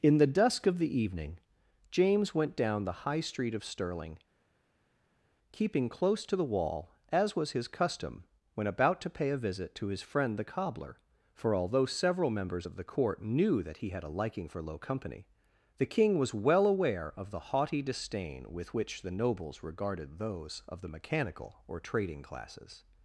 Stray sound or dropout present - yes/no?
no